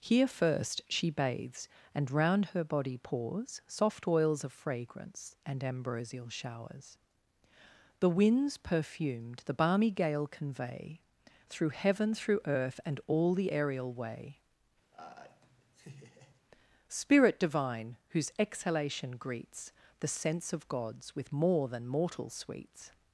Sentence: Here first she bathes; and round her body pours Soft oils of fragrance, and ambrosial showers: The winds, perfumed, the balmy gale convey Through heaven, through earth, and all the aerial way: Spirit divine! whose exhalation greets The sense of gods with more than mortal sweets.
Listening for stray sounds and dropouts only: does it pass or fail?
fail